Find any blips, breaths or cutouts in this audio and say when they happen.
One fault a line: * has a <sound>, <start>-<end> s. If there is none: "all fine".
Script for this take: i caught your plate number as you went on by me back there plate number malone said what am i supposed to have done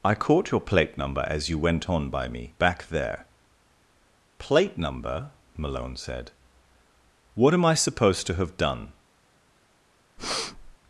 * has a breath, 10.2-10.8 s